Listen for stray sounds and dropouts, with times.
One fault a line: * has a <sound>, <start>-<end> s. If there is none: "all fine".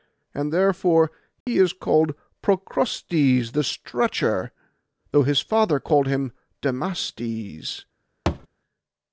* has a dropout, 1.4-1.5 s
* has a thud, 8.3-8.5 s